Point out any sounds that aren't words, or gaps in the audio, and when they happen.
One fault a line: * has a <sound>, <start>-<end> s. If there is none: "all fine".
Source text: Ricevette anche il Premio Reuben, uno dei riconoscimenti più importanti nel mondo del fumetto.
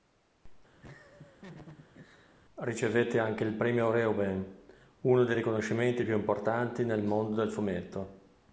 * has a laugh, 0.8-2.3 s